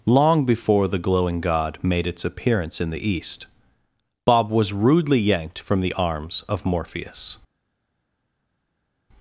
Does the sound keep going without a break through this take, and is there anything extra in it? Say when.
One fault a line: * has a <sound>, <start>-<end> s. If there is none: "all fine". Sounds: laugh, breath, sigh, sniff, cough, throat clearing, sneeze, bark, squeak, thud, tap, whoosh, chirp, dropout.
all fine